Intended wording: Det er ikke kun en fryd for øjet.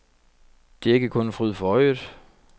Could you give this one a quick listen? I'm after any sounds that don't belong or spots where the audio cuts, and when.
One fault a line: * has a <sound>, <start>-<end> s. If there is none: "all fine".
all fine